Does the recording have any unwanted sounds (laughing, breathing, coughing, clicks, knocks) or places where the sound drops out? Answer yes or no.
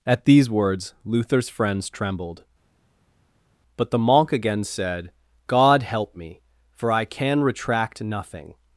no